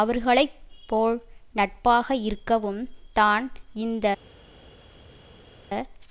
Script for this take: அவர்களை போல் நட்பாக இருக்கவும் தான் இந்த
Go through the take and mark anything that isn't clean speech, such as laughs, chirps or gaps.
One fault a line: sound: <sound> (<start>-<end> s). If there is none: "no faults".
no faults